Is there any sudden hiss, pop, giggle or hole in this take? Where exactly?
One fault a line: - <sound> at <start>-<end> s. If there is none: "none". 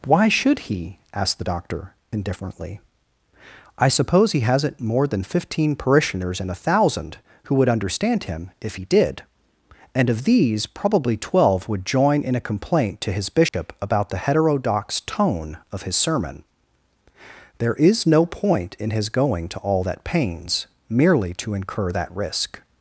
- dropout at 13.5-13.5 s